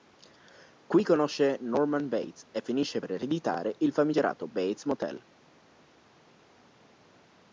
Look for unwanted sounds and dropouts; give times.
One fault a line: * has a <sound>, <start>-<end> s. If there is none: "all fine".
all fine